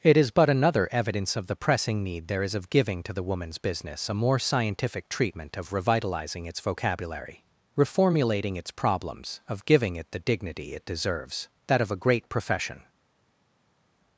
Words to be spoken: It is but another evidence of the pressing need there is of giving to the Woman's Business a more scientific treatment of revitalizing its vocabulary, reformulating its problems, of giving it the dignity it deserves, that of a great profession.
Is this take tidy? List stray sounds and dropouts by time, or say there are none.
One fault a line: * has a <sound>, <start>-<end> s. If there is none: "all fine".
all fine